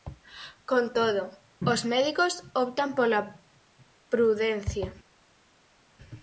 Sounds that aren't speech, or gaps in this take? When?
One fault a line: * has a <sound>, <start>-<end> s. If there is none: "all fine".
all fine